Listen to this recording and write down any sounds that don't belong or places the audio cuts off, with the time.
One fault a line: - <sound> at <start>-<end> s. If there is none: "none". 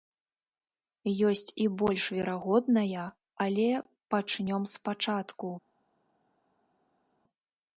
none